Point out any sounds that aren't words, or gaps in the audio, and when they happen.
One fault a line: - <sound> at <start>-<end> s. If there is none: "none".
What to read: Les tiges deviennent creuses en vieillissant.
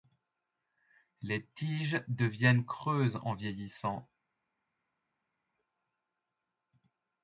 none